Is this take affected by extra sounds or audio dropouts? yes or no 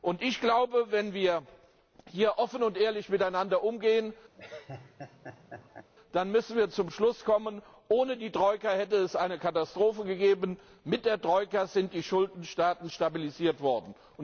yes